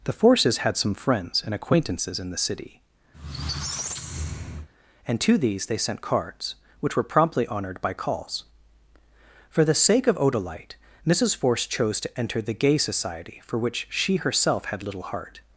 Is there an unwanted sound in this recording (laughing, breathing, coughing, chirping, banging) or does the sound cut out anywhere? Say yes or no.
yes